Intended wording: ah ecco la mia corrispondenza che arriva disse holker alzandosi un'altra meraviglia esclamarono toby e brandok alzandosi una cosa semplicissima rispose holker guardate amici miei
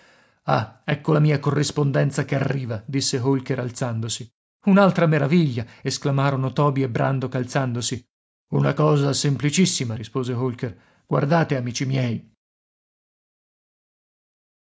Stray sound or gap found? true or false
false